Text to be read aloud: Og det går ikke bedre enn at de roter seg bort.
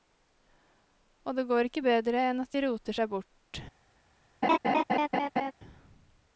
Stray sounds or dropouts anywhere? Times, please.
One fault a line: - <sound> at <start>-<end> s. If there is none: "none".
- laugh at 4.4-5.5 s